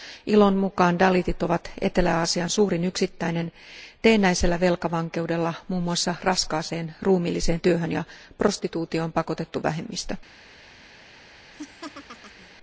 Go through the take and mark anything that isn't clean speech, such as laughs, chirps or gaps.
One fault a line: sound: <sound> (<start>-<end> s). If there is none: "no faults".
sound: laugh (11.5-12.5 s)